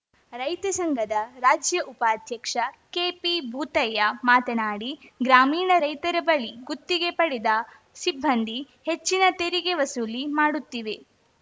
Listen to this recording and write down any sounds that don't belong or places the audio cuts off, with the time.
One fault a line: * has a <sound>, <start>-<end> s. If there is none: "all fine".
all fine